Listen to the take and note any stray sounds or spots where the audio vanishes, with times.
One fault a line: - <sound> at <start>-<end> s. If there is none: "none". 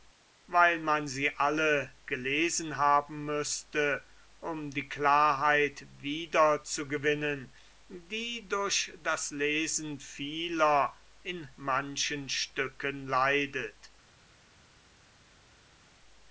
none